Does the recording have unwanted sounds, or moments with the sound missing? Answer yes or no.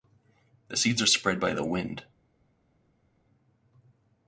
no